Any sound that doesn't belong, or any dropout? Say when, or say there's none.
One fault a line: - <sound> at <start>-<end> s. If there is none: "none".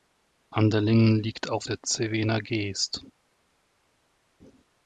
none